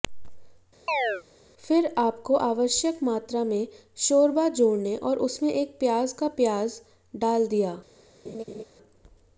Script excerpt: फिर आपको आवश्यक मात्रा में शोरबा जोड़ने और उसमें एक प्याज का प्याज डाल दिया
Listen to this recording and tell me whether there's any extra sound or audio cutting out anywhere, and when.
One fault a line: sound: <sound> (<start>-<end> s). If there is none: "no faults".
sound: chirp (0.9-1.2 s)
sound: laugh (8.2-8.6 s)